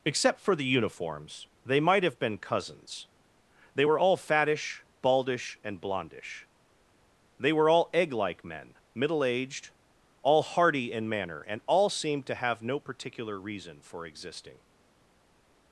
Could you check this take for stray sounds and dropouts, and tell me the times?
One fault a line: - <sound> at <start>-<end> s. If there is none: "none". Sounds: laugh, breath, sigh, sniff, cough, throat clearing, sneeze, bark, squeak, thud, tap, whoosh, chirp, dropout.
none